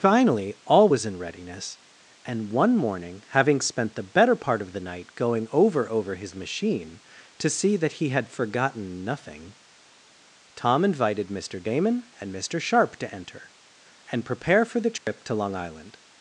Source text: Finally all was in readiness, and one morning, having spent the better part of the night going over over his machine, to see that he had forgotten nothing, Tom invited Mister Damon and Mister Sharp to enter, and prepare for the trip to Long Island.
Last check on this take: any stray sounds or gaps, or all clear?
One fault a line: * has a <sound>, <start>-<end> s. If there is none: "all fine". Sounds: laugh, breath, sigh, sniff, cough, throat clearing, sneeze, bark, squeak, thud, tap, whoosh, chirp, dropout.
* has a dropout, 15.0-15.1 s